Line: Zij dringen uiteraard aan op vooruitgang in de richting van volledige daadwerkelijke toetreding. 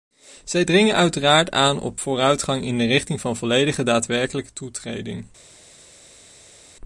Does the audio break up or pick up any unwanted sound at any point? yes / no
no